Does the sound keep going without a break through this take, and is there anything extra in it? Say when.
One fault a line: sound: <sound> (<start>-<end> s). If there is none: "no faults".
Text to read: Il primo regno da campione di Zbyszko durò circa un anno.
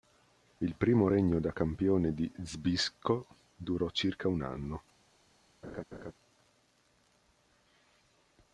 sound: laugh (5.6-6.1 s)